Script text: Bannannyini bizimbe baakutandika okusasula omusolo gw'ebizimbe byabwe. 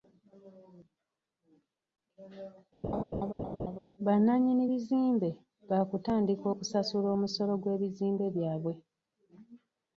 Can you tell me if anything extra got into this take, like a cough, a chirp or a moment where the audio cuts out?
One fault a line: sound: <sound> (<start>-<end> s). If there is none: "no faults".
sound: laugh (2.8-3.8 s)